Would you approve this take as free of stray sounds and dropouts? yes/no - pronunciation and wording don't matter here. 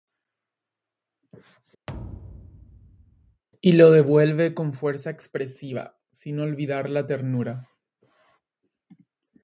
no